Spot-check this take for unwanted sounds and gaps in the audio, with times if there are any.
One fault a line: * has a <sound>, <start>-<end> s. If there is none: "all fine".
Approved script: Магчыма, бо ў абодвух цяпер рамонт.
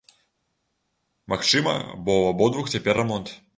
all fine